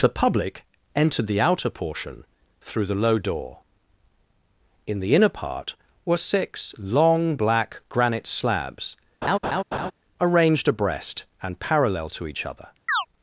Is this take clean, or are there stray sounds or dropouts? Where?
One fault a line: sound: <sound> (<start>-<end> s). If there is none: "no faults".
sound: laugh (9.2-9.9 s)
sound: chirp (12.9-13.1 s)